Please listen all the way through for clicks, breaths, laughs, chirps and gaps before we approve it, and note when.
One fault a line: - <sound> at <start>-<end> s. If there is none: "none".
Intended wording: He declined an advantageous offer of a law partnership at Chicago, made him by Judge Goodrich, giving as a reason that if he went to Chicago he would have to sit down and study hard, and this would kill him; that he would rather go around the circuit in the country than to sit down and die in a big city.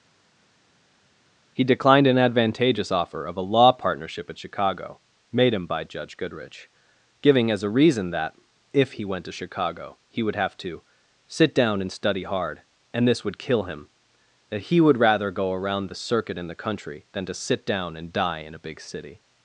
none